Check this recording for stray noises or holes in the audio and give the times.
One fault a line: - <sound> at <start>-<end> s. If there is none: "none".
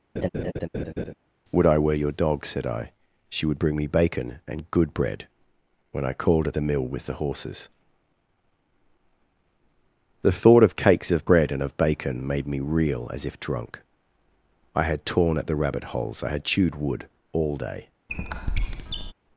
- laugh at 0.2-1.1 s
- squeak at 18.1-19.1 s